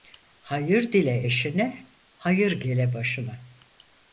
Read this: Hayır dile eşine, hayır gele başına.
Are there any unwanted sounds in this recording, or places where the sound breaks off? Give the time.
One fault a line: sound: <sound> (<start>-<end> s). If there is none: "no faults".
no faults